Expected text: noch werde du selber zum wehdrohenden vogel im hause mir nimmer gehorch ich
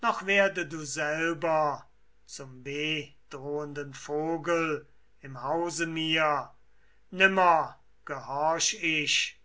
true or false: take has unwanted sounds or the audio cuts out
false